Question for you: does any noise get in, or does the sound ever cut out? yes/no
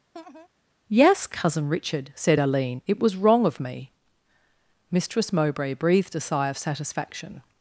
yes